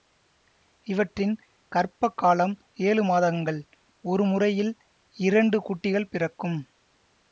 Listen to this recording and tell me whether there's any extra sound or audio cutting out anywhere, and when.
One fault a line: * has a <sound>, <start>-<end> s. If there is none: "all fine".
all fine